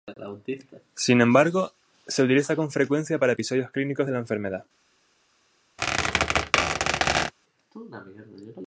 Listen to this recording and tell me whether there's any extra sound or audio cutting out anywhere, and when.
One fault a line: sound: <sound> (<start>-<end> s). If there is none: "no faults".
sound: squeak (5.8-7.3 s)